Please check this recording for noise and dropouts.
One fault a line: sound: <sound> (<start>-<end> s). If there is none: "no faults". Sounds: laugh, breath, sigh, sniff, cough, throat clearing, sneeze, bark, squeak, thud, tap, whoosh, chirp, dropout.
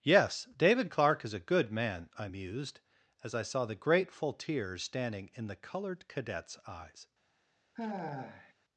sound: sigh (7.8-8.5 s)